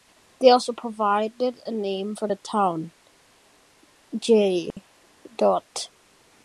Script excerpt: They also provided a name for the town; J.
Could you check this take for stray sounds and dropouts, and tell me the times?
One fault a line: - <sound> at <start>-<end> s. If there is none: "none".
- dropout at 4.7-4.8 s